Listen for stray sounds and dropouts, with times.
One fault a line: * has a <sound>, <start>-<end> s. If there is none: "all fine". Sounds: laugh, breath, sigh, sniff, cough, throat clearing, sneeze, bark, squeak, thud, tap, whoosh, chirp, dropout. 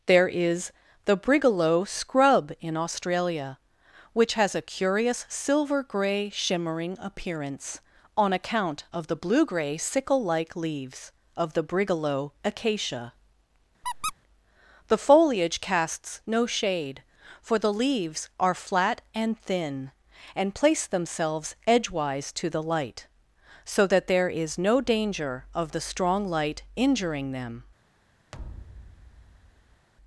* has a squeak, 13.8-14.1 s
* has a thud, 28.3-29.9 s